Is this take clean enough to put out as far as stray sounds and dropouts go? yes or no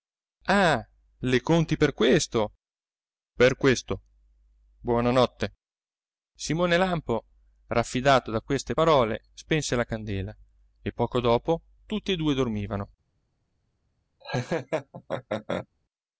no